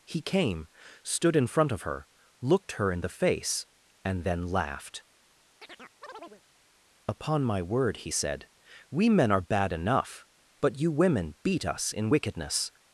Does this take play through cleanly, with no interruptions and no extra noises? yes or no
no